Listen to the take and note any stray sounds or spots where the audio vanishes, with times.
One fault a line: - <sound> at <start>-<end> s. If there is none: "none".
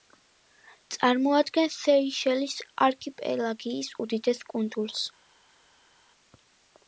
none